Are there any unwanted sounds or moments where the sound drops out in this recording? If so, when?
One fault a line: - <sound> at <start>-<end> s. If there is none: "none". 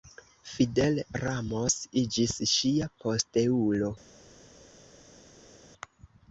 none